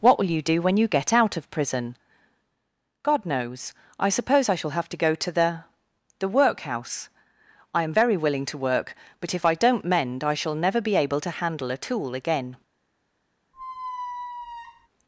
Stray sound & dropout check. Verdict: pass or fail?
fail